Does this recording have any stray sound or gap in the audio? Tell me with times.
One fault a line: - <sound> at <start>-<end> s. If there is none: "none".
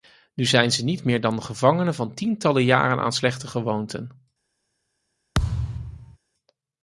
- thud at 5.3-6.2 s